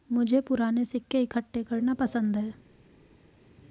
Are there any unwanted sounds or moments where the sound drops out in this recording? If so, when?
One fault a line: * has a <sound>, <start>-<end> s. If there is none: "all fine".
all fine